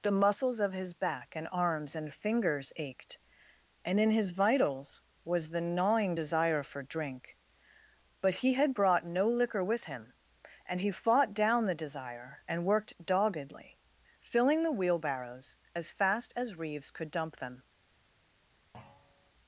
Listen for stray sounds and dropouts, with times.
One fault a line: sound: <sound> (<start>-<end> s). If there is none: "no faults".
sound: thud (18.7-19.3 s)